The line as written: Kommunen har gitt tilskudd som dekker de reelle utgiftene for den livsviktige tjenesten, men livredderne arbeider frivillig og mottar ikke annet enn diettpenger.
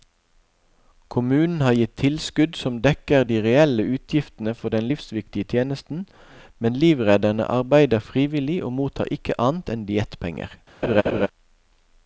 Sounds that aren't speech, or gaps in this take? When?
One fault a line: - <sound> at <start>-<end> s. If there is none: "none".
- laugh at 10.8-11.3 s